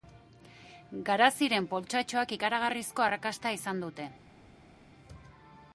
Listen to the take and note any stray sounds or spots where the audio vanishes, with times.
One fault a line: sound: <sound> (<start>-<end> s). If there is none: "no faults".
no faults